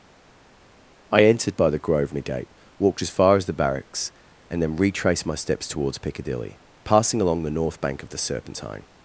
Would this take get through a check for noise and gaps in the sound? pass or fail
pass